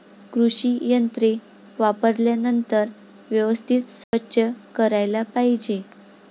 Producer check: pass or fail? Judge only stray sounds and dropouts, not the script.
fail